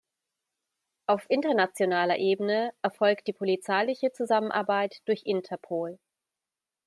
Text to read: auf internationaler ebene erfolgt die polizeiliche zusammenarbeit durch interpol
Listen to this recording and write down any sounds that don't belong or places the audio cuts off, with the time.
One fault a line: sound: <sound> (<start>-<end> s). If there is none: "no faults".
no faults